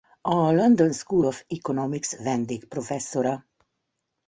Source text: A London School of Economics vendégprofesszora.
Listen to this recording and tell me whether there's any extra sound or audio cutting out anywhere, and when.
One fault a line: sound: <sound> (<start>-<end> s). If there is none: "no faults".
no faults